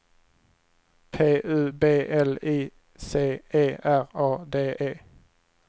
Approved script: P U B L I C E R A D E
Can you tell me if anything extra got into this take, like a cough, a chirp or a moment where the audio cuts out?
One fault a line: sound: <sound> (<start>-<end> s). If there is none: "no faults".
no faults